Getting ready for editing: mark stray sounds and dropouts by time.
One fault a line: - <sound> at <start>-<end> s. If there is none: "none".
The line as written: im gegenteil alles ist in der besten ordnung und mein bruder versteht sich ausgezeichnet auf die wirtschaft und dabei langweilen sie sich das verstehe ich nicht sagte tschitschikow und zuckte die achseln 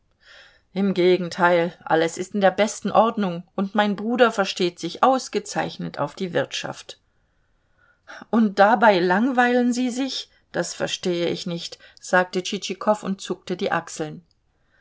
none